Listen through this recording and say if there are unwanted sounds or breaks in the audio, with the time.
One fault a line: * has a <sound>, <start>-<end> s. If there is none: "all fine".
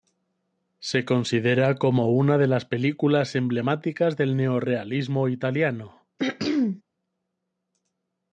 * has a throat clearing, 6.2-6.8 s